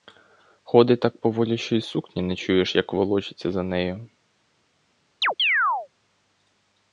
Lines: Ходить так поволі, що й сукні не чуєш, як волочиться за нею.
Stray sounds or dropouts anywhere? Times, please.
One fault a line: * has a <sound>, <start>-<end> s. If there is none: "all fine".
* has a chirp, 5.2-5.9 s